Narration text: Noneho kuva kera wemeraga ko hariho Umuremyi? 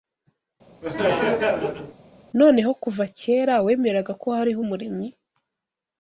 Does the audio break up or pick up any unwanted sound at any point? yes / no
yes